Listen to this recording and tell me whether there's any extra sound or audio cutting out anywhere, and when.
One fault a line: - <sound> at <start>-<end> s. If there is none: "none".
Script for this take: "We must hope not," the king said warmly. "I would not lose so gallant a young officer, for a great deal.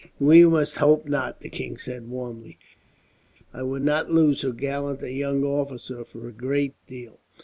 none